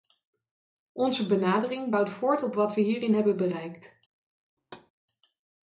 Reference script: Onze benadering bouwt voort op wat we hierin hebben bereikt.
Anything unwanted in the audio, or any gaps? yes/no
yes